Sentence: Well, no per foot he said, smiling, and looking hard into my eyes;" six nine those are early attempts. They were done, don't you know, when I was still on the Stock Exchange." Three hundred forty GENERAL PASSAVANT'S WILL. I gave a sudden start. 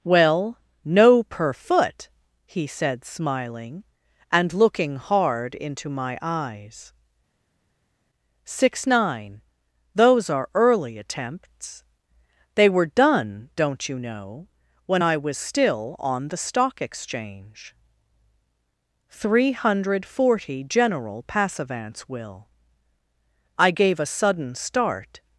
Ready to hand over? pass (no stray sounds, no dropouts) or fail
pass